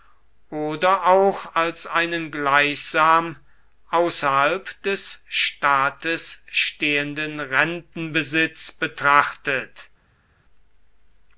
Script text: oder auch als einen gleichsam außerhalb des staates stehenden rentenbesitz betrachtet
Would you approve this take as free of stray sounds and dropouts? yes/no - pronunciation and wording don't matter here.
yes